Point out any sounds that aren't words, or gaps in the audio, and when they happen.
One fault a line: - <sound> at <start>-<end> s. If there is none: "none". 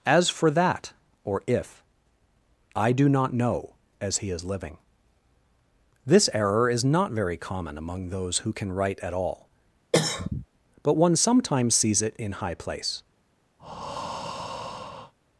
- cough at 9.9-10.5 s
- breath at 13.6-15.1 s